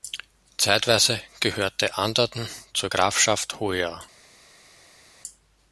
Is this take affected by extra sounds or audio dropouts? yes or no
no